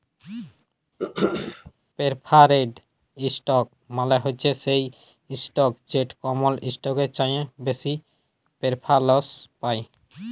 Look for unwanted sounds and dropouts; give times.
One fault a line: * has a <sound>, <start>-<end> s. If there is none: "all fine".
* has a throat clearing, 1.0-1.7 s